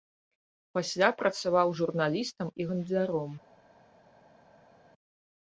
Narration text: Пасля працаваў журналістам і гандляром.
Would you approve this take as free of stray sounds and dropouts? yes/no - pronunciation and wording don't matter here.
yes